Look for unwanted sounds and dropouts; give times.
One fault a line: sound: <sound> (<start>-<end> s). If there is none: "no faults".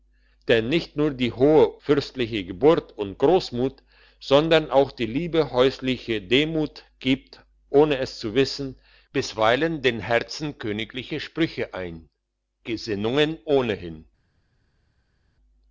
no faults